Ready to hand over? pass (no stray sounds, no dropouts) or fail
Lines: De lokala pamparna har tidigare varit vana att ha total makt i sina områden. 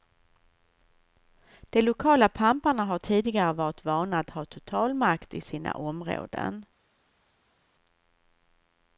pass